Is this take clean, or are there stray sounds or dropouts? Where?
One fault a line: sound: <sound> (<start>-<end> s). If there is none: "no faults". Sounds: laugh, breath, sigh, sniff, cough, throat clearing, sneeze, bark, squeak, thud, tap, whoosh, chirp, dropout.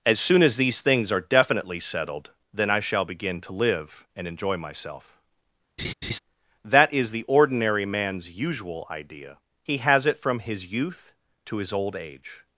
sound: laugh (5.8-6.2 s)